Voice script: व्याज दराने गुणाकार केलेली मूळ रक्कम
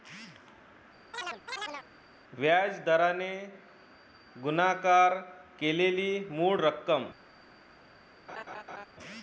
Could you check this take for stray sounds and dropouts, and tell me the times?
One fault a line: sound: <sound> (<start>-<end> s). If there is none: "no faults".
sound: chirp (1.1-1.9 s)
sound: laugh (8.3-8.9 s)